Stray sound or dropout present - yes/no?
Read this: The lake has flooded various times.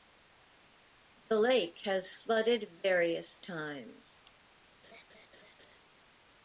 yes